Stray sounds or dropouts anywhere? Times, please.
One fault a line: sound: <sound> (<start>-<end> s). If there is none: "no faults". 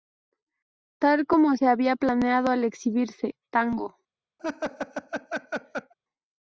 sound: laugh (4.4-5.9 s)